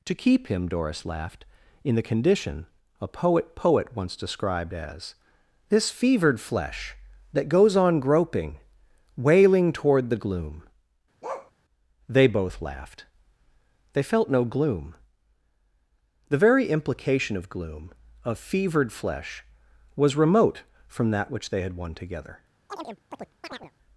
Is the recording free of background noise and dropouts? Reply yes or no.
no